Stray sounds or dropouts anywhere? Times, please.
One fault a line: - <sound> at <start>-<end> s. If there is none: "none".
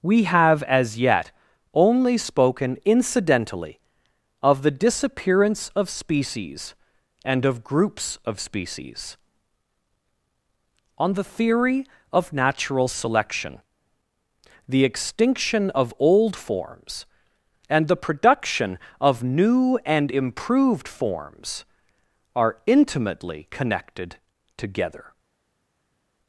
none